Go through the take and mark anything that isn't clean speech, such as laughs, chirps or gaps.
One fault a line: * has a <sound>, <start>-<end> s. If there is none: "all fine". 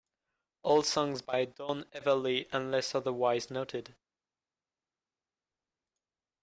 all fine